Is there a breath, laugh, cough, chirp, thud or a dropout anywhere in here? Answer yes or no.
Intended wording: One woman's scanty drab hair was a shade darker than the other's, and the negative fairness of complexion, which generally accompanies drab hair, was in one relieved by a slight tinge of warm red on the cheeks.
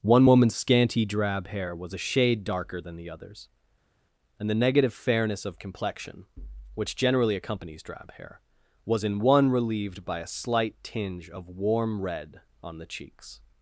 no